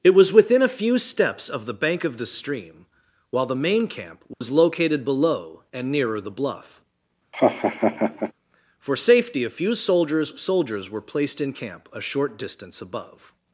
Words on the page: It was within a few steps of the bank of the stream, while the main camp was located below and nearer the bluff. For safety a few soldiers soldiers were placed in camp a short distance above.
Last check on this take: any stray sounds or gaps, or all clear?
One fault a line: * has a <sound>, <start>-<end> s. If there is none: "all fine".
* has a dropout, 4.3-4.4 s
* has a laugh, 7.3-8.3 s